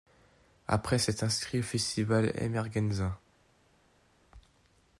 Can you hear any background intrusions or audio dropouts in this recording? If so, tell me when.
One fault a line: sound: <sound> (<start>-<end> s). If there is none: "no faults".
no faults